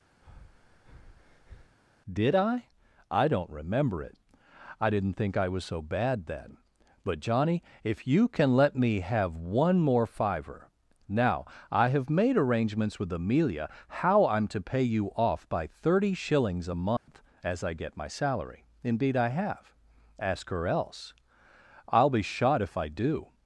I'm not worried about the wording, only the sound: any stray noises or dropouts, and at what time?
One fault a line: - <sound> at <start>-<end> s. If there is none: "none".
- breath at 0.2-1.8 s
- dropout at 17.0-17.1 s